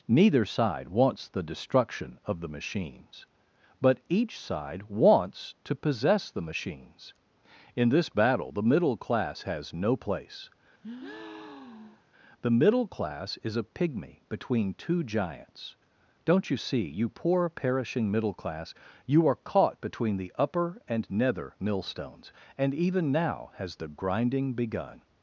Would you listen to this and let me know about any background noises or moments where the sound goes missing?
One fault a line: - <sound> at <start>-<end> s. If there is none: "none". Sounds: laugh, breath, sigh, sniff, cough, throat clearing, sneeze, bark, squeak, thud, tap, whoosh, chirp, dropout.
- breath at 10.8-12.1 s